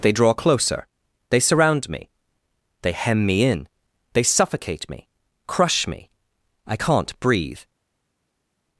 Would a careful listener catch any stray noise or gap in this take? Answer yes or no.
no